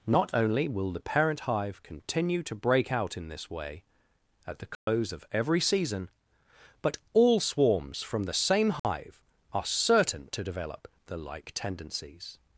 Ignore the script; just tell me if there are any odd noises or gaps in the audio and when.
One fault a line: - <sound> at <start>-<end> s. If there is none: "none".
- dropout at 4.7-4.9 s
- dropout at 8.8-8.8 s